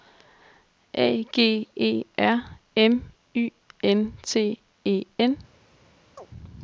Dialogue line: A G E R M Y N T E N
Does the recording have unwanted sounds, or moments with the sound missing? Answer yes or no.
yes